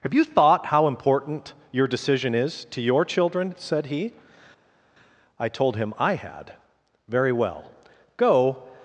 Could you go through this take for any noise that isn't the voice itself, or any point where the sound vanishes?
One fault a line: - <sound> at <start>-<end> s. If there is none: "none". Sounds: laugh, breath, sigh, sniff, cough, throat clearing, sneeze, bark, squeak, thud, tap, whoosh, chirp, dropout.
none